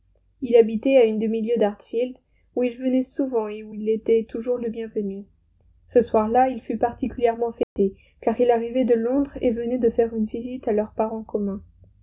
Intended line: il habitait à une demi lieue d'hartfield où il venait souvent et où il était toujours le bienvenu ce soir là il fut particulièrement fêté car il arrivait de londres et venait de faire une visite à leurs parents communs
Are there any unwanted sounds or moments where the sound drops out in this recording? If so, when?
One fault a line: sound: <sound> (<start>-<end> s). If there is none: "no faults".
sound: dropout (7.6-7.8 s)